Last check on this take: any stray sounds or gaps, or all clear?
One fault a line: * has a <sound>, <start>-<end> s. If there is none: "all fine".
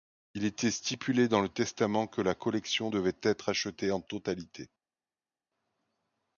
all fine